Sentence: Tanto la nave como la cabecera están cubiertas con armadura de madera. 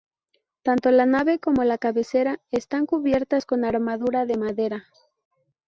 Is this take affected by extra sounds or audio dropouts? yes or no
no